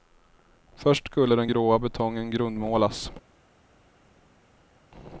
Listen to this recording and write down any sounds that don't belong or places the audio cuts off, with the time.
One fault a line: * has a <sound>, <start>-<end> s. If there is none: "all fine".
all fine